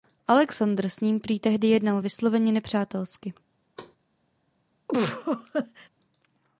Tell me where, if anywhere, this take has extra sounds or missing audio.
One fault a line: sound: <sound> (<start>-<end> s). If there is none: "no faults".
sound: thud (3.8-4.0 s)
sound: laugh (4.9-5.9 s)